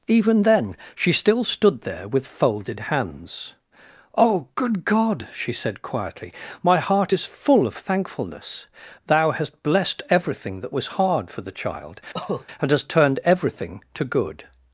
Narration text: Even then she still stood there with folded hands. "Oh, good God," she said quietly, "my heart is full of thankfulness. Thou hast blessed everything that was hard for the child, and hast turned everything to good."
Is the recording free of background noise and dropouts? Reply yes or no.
no